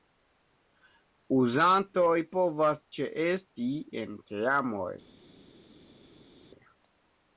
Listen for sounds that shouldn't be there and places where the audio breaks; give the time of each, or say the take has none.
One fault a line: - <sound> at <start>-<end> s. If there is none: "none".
none